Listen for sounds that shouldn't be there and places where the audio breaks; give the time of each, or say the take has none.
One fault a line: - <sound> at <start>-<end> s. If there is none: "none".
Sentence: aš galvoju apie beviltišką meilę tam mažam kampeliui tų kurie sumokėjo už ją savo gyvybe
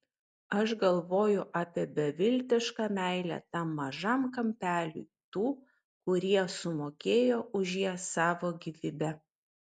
none